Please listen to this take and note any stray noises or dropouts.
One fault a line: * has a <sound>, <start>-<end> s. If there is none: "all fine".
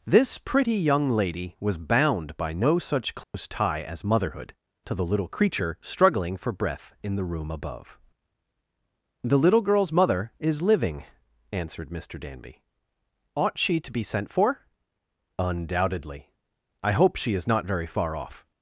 * has a dropout, 3.2-3.3 s